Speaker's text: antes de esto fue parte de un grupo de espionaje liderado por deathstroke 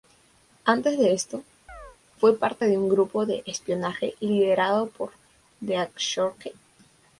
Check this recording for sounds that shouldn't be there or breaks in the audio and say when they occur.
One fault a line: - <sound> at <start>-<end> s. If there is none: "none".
- chirp at 1.7-2.0 s